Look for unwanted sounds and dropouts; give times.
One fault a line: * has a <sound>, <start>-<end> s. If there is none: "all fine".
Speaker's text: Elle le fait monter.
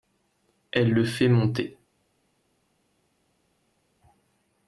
all fine